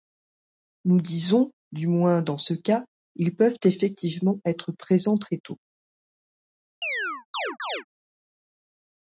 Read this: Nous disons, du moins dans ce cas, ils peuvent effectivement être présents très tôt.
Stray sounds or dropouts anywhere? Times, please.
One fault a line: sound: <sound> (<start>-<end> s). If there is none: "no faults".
sound: chirp (6.8-7.8 s)